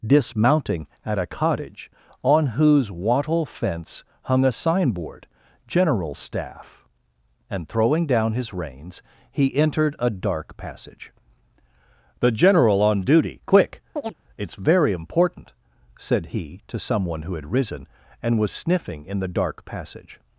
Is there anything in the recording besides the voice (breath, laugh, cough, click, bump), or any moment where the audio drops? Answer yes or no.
yes